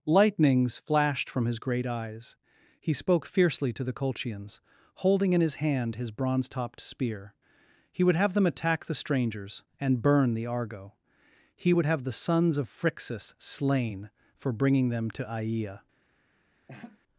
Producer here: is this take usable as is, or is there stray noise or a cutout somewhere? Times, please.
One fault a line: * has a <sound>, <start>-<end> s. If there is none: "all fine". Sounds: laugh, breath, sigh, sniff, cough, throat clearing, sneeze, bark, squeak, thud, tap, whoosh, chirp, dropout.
* has a laugh, 16.7-17.0 s